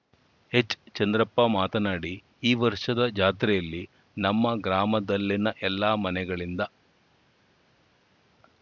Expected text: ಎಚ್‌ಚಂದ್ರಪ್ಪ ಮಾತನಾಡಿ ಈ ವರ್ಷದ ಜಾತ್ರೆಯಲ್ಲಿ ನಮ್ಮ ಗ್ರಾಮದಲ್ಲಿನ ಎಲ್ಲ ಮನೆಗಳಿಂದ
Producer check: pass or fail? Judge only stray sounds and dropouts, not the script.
pass